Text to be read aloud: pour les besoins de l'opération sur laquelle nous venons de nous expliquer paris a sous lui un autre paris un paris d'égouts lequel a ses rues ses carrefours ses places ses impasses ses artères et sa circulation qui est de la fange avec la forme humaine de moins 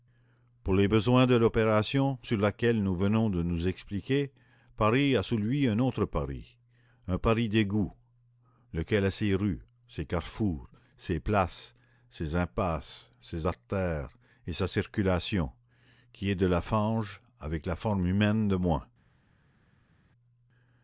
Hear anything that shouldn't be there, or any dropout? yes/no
no